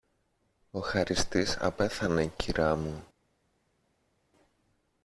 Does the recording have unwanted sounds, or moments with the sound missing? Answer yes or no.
no